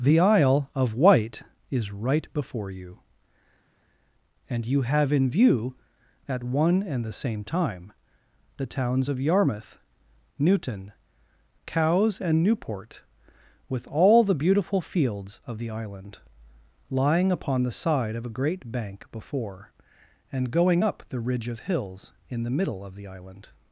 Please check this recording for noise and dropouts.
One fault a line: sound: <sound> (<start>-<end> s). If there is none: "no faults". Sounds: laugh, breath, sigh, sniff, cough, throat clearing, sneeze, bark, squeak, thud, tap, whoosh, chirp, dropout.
no faults